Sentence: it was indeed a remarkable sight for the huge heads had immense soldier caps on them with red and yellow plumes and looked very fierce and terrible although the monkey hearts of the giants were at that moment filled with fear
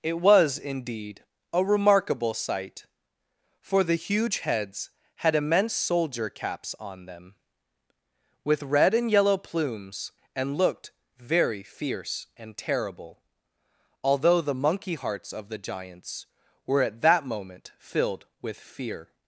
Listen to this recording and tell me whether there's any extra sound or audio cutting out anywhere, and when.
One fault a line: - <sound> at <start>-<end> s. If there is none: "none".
none